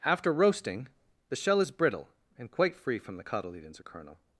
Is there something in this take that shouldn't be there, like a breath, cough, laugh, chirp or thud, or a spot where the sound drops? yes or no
no